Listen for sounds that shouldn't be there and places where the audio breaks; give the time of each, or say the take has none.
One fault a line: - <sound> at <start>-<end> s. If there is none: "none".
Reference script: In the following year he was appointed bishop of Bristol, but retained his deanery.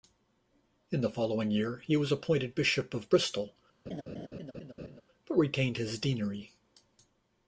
- laugh at 3.9-5.0 s